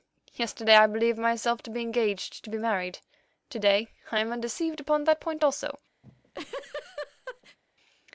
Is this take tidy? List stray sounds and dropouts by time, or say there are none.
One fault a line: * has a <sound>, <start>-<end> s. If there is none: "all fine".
* has a laugh, 6.0-7.6 s